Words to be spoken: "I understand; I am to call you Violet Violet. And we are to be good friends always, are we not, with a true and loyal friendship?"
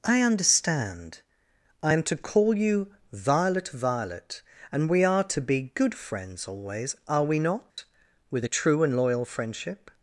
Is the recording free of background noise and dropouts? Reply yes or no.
no